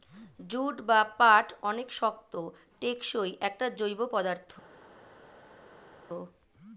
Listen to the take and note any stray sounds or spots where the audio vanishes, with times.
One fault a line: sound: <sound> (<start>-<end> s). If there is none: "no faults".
no faults